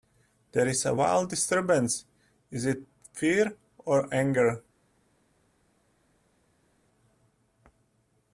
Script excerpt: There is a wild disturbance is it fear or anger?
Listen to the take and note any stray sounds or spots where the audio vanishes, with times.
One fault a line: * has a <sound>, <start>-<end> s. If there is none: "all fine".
all fine